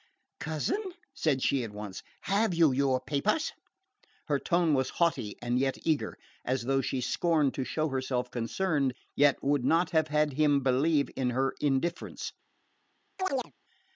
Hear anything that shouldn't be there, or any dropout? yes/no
yes